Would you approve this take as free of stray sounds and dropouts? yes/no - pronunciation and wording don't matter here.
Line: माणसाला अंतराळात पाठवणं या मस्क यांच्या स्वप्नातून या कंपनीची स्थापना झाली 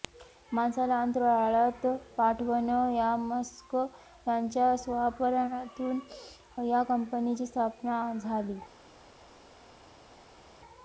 yes